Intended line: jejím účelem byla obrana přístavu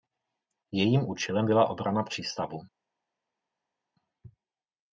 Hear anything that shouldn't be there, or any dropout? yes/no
no